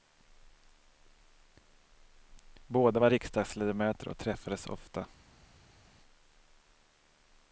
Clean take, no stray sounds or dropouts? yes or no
yes